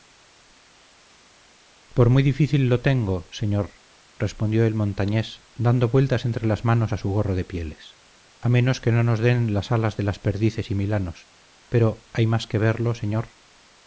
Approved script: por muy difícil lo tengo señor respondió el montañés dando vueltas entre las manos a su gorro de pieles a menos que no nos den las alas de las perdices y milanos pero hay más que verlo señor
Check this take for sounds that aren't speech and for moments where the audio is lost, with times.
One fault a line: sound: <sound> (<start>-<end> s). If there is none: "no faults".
no faults